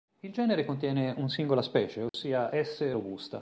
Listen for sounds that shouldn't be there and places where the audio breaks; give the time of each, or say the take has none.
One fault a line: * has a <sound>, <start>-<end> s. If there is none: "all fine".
* has a dropout, 2.1-2.1 s